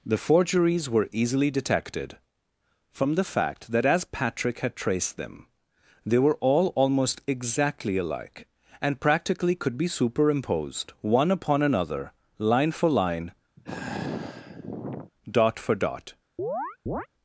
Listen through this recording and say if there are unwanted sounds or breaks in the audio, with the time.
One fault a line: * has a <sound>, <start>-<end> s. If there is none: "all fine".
* has a sigh, 13.6-15.1 s
* has a chirp, 16.4-17.1 s